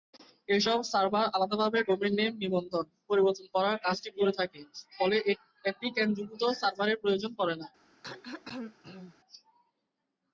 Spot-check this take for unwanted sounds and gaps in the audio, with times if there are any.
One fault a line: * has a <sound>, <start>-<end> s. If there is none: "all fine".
* has a throat clearing, 8.0-9.2 s